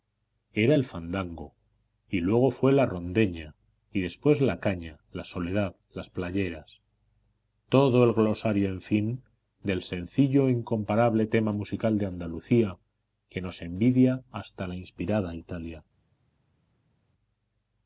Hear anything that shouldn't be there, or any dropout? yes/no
no